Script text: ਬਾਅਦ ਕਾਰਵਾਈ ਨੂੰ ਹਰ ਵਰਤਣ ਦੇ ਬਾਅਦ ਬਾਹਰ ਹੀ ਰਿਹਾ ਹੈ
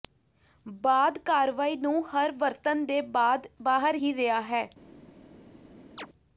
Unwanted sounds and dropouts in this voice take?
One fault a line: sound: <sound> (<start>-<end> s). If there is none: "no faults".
sound: chirp (6.0-6.1 s)